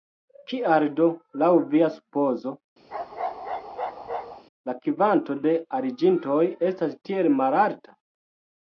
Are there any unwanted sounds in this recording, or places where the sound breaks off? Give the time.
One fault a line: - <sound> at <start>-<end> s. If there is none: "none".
- bark at 2.9-4.4 s